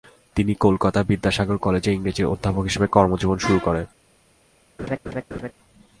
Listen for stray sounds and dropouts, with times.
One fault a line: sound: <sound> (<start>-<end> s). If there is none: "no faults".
sound: laugh (4.8-5.5 s)